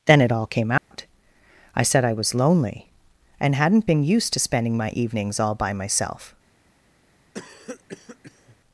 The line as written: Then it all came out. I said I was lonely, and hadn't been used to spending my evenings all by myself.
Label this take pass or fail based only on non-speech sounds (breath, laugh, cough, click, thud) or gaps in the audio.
fail